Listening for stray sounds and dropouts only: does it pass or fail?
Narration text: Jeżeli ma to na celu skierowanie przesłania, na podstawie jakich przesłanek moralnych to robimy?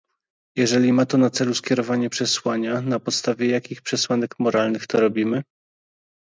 pass